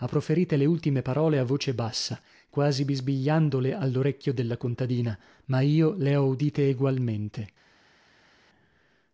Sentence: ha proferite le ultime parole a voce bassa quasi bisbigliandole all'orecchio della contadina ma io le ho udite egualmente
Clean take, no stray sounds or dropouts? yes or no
yes